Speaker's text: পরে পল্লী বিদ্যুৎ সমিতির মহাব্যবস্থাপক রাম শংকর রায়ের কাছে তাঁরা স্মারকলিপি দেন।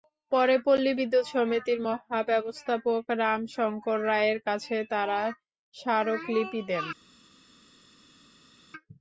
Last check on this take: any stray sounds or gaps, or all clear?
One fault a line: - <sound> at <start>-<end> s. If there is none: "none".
none